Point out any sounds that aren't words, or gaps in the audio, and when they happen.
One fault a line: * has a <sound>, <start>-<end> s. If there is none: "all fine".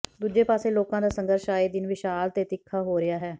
all fine